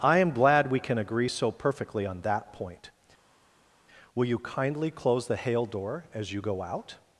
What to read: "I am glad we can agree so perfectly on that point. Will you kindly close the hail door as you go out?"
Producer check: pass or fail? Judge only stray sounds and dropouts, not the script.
pass